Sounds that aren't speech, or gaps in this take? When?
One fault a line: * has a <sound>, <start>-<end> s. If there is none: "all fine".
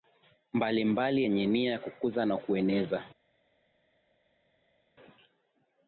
all fine